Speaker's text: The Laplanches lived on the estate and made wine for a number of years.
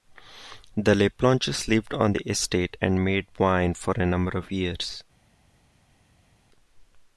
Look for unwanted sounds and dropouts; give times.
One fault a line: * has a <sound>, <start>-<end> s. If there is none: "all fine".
all fine